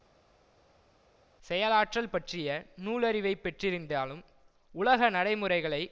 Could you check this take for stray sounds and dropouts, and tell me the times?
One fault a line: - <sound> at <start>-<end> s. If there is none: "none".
none